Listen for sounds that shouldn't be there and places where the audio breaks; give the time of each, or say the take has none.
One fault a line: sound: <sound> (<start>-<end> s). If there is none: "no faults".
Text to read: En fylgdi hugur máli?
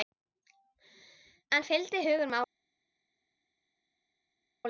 no faults